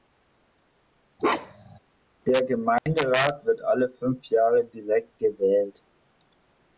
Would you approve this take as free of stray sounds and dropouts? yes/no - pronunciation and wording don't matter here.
no